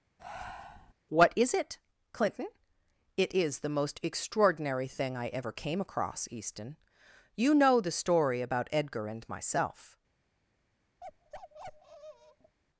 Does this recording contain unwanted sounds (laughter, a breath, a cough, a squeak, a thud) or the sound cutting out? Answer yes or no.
yes